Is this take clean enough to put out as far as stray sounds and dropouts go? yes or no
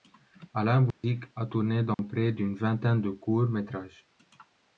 no